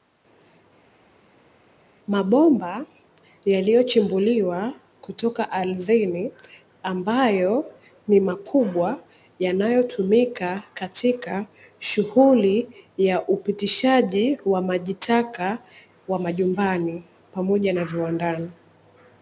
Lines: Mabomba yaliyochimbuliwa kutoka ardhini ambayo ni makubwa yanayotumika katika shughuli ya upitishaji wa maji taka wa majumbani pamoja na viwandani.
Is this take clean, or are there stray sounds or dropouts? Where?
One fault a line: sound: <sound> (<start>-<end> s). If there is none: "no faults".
no faults